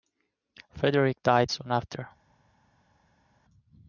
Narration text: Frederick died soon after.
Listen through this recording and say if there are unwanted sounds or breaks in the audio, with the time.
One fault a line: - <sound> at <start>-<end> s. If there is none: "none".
none